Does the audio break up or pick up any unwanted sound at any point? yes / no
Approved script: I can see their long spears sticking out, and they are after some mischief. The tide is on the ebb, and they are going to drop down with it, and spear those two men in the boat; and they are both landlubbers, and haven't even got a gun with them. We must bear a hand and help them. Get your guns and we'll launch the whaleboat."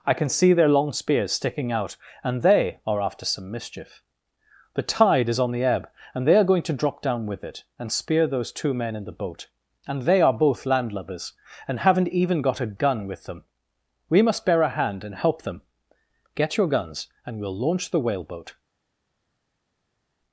no